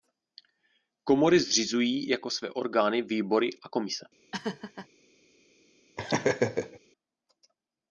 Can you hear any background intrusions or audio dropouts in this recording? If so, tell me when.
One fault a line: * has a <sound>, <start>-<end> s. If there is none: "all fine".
* has a laugh, 4.3-4.9 s
* has a laugh, 6.0-6.8 s